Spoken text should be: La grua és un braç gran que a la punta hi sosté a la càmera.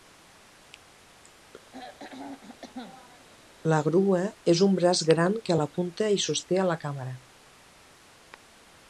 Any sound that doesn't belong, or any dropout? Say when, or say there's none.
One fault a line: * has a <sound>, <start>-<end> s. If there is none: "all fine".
* has a throat clearing, 1.7-3.3 s